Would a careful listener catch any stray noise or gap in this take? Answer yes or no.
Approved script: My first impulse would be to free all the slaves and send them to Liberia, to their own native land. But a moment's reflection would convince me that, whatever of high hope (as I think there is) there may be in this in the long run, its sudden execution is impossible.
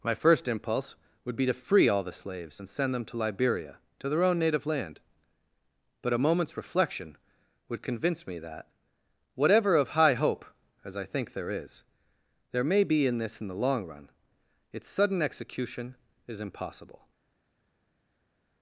no